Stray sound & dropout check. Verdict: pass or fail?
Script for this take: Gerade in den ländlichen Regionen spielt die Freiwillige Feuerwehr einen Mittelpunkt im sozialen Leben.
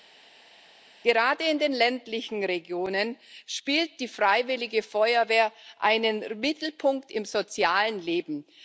pass